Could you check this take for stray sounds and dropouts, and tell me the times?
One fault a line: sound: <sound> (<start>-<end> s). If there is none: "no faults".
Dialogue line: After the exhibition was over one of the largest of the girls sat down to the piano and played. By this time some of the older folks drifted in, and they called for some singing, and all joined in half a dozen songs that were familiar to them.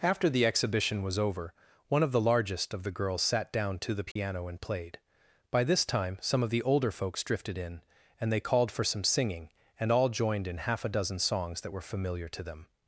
sound: dropout (4.1-4.2 s)